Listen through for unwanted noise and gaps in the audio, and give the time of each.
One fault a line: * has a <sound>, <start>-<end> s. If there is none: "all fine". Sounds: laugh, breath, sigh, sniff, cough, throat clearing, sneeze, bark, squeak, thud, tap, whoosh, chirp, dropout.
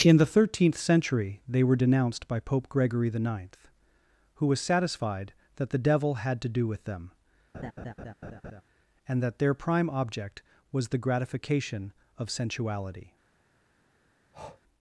* has a laugh, 7.5-8.6 s
* has a breath, 14.3-14.6 s